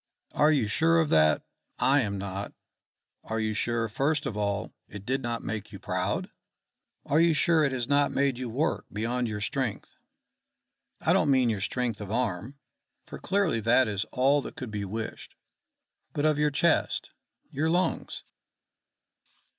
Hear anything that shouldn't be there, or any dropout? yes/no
no